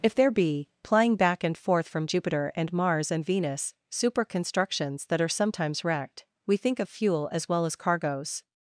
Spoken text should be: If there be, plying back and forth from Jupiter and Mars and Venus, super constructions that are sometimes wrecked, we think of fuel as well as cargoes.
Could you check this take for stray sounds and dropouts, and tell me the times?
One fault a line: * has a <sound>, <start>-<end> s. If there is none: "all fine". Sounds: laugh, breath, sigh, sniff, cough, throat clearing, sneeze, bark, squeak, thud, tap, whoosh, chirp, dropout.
all fine